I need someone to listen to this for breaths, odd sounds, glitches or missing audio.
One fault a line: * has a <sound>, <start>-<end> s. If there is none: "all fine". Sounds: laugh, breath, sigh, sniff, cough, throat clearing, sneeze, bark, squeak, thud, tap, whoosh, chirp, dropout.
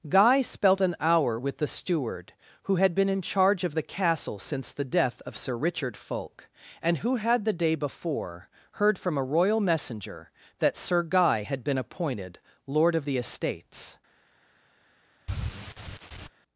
* has a sigh, 15.3-16.3 s